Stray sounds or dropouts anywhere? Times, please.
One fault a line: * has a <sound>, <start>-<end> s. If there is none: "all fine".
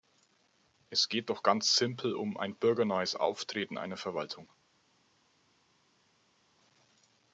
all fine